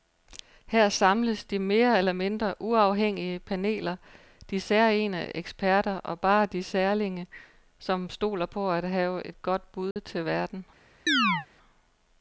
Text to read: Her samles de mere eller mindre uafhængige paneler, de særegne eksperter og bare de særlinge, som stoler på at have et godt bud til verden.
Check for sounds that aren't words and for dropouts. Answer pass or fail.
fail